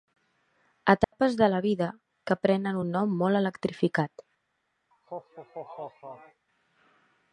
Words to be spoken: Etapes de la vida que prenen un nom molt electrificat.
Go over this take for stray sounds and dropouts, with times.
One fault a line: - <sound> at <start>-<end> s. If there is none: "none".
- dropout at 1.0-1.1 s
- laugh at 4.9-6.5 s